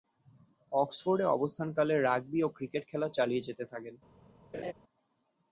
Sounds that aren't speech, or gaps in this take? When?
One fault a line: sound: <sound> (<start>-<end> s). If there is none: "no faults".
sound: laugh (4.5-4.7 s)